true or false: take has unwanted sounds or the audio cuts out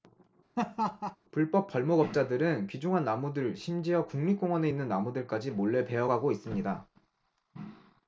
true